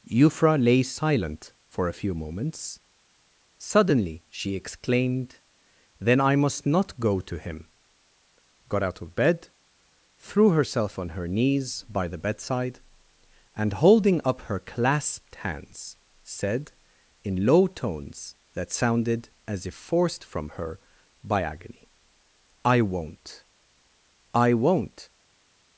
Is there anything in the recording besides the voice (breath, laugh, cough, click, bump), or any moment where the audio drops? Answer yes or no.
no